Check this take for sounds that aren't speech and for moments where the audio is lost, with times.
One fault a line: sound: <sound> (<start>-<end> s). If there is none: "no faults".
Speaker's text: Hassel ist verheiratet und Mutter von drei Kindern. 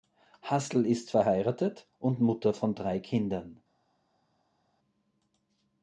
no faults